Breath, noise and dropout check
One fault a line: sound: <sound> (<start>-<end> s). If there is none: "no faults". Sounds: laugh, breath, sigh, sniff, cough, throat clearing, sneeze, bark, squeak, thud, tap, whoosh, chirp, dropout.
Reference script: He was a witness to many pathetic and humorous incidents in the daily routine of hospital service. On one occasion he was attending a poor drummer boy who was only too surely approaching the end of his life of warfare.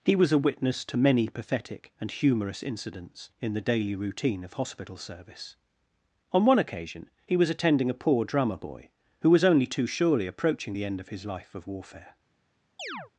sound: chirp (12.8-13.1 s)